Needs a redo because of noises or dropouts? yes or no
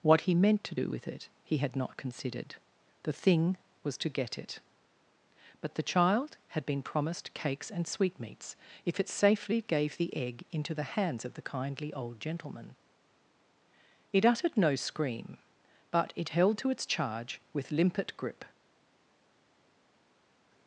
no